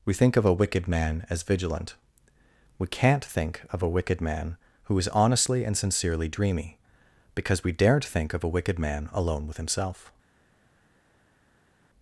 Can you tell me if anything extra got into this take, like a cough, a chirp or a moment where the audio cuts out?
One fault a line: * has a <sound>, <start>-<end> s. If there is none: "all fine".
all fine